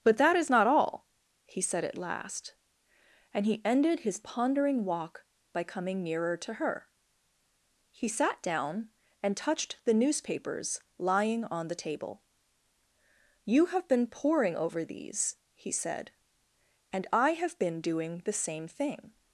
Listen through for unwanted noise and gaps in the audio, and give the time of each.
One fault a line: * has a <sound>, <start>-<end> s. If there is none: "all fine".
all fine